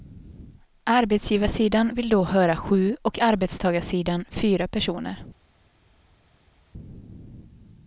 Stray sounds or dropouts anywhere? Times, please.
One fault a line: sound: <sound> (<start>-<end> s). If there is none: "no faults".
no faults